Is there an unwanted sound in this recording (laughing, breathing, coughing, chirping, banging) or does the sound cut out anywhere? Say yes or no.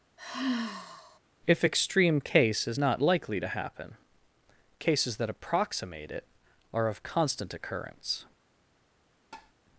yes